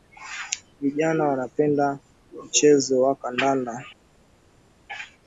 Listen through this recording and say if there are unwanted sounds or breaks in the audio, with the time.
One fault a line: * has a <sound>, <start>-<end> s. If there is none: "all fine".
all fine